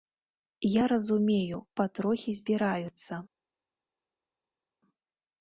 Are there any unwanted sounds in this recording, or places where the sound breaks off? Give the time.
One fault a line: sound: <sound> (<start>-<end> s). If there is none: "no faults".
no faults